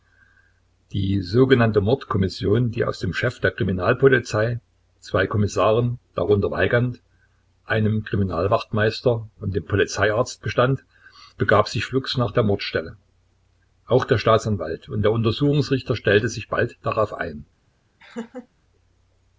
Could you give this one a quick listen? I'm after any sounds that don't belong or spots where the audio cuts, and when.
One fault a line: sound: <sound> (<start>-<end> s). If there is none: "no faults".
sound: laugh (18.0-18.5 s)